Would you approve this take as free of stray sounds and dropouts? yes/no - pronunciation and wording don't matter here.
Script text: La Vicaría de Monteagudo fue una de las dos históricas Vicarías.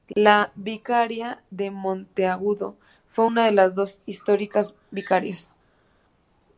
yes